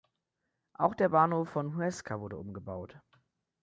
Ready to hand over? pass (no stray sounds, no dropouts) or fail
pass